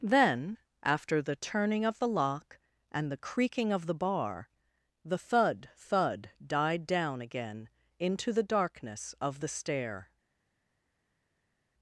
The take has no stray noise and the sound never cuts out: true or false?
true